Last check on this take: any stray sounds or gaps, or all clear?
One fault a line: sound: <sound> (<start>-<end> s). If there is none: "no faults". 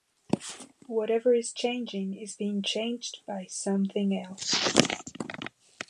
no faults